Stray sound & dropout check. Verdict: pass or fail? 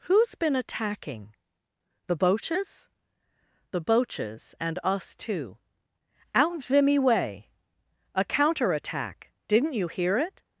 pass